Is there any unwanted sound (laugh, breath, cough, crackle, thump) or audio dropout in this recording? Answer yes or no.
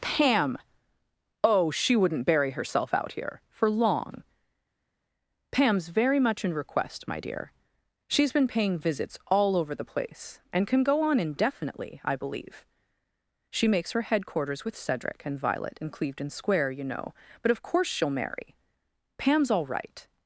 no